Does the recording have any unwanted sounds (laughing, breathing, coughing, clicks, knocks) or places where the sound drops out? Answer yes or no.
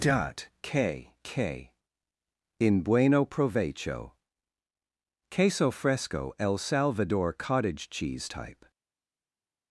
no